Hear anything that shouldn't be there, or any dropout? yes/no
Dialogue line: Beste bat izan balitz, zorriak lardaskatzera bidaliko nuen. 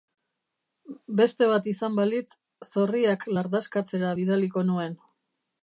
no